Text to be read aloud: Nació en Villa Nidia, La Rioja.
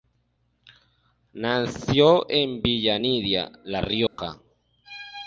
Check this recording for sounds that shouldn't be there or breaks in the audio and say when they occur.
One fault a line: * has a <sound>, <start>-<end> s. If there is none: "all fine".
* has a dropout, 4.1-4.2 s